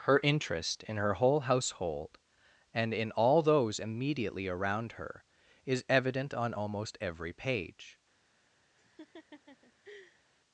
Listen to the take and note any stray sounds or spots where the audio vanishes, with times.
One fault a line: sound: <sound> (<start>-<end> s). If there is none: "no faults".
sound: laugh (8.8-10.2 s)